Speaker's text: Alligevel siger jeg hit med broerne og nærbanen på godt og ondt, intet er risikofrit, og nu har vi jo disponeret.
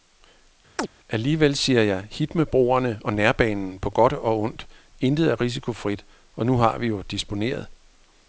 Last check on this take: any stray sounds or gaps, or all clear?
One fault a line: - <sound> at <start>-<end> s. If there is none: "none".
- chirp at 0.8-0.9 s